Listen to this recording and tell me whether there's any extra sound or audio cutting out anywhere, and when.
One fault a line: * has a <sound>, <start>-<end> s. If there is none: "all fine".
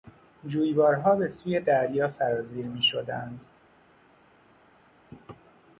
all fine